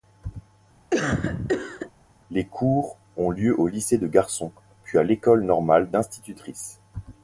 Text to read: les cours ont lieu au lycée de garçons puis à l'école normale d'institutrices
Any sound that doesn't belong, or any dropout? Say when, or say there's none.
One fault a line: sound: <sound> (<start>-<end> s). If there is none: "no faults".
sound: cough (0.9-1.9 s)